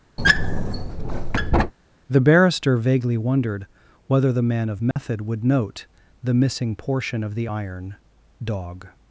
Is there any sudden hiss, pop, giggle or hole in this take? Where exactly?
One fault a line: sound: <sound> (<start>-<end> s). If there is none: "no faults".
sound: squeak (0.2-1.7 s)
sound: dropout (4.9-5.0 s)